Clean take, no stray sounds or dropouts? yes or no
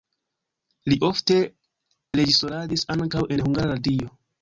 yes